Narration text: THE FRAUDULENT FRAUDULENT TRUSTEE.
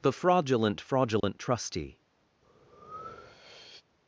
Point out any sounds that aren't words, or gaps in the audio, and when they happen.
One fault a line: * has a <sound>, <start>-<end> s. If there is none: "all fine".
* has a dropout, 1.2-1.2 s
* has a breath, 2.4-3.8 s